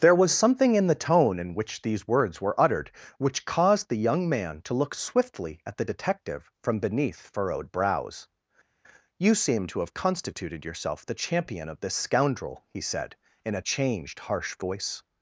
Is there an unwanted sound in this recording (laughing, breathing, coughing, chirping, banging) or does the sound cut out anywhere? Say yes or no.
no